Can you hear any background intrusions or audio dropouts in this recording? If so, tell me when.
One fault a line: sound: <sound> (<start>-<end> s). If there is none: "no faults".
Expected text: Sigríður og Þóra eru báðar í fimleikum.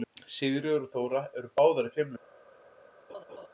sound: laugh (3.1-3.5 s)